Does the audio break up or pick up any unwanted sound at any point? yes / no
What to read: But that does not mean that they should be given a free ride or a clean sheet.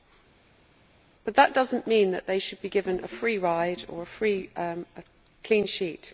no